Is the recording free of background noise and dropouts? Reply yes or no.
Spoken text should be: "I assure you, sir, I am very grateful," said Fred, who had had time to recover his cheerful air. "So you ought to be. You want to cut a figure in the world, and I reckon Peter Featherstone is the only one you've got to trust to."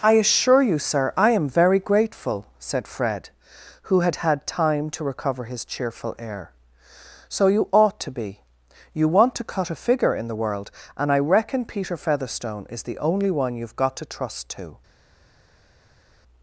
yes